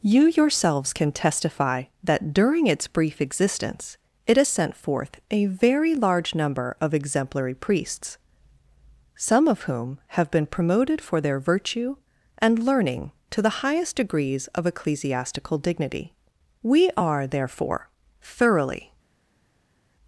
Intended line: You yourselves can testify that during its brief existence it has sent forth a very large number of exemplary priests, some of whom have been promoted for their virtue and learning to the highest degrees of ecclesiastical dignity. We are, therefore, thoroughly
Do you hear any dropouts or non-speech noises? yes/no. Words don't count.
no